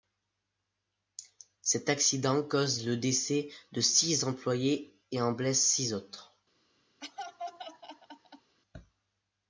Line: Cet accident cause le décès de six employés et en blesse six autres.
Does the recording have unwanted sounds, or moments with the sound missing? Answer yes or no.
yes